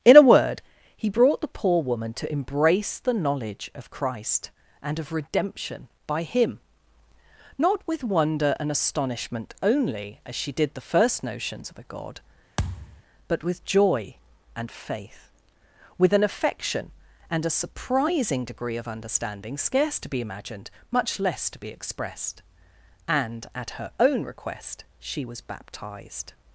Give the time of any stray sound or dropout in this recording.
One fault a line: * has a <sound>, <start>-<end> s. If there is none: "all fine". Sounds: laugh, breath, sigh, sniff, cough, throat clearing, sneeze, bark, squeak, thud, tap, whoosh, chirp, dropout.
* has a thud, 12.6-13.0 s